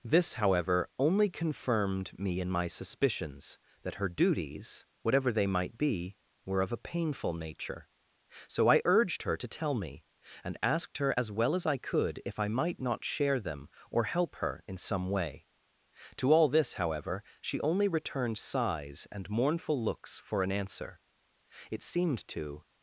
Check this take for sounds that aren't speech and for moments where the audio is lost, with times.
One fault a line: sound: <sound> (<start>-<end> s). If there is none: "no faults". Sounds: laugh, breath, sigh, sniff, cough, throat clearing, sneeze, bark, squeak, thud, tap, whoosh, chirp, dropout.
no faults